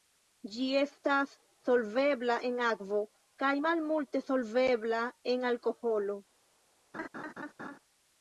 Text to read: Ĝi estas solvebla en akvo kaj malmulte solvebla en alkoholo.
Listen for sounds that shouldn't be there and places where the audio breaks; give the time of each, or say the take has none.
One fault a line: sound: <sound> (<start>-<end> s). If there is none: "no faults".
sound: laugh (6.9-7.8 s)